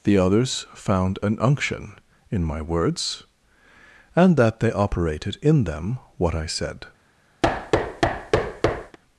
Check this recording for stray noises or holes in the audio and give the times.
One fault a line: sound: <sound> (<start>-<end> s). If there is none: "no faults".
sound: thud (7.4-9.0 s)